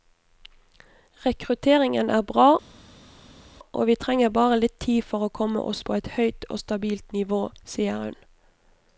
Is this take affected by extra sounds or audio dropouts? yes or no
no